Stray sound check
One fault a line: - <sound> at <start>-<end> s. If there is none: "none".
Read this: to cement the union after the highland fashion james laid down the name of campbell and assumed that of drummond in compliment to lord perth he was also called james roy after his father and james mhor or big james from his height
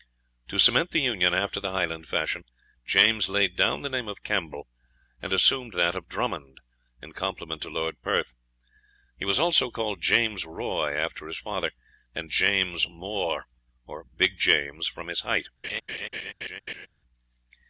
- laugh at 15.6-16.9 s